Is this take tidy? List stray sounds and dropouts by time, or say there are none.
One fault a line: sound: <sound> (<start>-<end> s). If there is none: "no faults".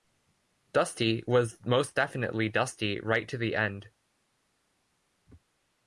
no faults